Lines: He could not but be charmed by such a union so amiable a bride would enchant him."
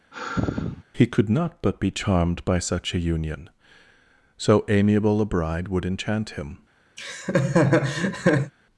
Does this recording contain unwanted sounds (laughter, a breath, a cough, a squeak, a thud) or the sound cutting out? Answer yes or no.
yes